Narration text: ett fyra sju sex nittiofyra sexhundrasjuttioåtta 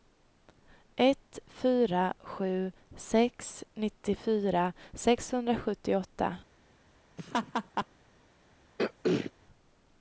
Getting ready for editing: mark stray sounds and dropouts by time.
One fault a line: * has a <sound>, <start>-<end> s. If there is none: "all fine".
* has a laugh, 7.2-7.9 s
* has a throat clearing, 8.8-9.3 s